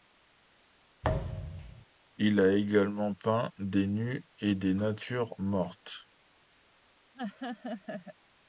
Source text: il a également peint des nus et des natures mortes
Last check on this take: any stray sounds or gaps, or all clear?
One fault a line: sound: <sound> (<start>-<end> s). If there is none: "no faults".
sound: thud (1.0-1.9 s)
sound: laugh (7.1-8.2 s)